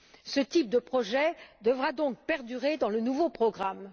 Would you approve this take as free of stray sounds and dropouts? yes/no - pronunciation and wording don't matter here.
yes